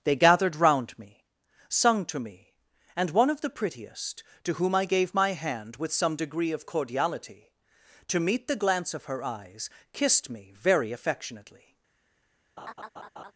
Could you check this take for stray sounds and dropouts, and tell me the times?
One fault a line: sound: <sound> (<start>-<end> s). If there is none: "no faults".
sound: laugh (12.6-13.3 s)